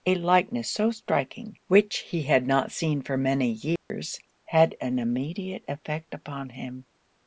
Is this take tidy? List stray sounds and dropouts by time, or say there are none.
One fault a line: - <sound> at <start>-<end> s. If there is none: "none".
- dropout at 3.8-3.9 s